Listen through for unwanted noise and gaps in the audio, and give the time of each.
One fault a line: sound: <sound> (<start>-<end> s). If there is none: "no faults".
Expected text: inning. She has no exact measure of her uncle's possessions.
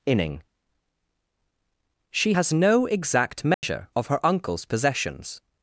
sound: dropout (3.5-3.6 s)